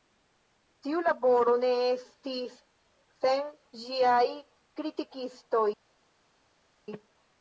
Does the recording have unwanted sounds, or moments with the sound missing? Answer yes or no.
no